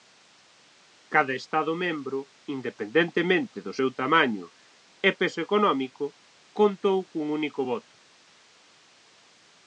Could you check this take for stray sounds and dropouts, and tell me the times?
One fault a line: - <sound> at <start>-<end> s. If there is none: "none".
none